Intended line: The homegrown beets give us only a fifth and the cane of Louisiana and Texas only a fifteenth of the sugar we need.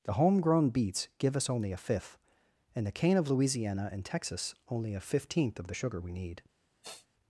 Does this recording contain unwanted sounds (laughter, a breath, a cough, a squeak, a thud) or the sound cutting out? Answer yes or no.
yes